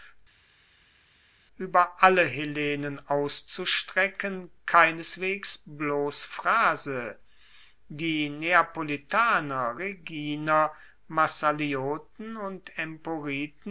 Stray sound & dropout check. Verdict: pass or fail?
pass